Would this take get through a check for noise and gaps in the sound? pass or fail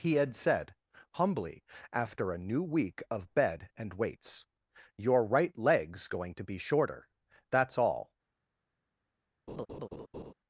fail